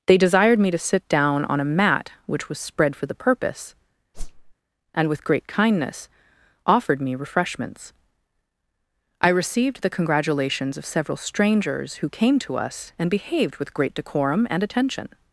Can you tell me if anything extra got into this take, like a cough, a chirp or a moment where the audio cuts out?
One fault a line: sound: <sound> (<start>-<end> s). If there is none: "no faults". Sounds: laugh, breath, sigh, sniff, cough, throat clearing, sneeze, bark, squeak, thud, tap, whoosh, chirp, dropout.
sound: whoosh (4.1-4.5 s)